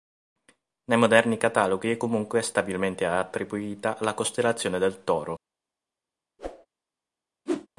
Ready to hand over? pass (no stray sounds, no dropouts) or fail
fail